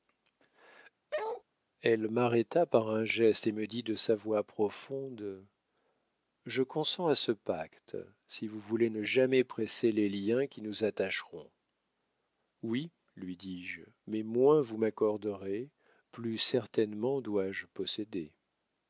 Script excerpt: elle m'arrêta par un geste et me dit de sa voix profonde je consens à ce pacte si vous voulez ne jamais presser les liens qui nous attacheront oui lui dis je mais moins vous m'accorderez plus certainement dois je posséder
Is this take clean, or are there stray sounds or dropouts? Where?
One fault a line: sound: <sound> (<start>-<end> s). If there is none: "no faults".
sound: bark (1.1-1.4 s)